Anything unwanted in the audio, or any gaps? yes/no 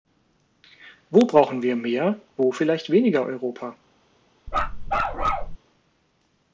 yes